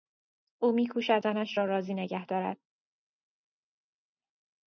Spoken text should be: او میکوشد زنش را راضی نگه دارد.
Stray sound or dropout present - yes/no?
no